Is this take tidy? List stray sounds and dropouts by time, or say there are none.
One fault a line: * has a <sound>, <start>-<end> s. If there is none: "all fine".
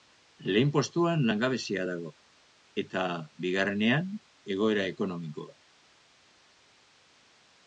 all fine